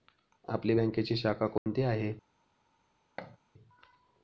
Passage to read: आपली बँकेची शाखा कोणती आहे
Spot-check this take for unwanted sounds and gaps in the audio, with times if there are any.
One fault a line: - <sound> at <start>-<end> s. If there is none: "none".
- dropout at 1.6-1.7 s
- thud at 3.2-3.4 s